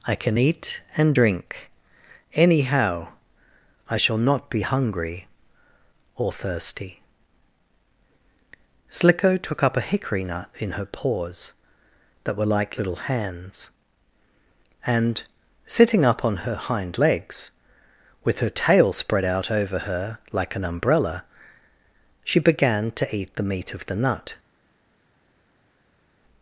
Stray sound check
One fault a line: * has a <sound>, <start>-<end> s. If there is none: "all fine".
all fine